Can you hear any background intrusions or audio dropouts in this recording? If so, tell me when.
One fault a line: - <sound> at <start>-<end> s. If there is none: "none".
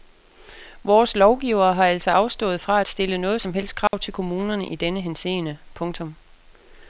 - dropout at 3.9-3.9 s